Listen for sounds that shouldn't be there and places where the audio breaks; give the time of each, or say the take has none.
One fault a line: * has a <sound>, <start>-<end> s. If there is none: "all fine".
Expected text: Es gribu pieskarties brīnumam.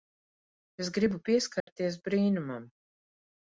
* has a dropout, 1.6-1.7 s